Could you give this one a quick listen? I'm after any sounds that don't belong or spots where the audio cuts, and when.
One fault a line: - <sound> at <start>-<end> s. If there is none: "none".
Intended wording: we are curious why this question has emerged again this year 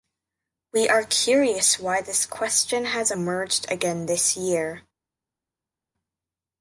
none